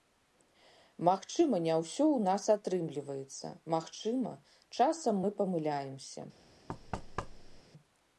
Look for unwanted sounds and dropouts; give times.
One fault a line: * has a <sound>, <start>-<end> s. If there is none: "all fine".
* has a thud, 6.7-7.6 s